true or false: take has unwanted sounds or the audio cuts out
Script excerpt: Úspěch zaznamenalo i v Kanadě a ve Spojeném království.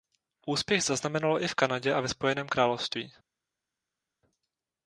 false